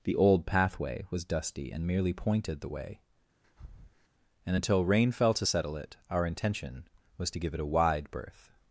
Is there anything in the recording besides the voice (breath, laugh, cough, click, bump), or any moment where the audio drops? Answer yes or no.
yes